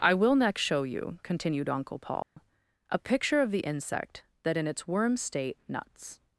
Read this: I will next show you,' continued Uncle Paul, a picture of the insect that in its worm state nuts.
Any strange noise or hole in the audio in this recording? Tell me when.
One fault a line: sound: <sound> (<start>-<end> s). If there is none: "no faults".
sound: dropout (2.2-2.4 s)